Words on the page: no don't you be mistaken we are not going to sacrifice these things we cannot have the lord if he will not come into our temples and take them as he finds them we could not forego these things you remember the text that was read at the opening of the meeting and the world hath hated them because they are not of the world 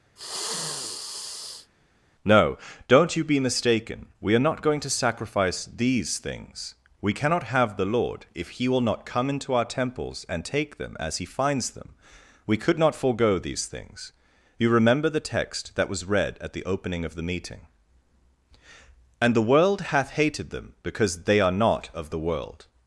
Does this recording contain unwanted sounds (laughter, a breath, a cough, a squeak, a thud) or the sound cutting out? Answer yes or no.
yes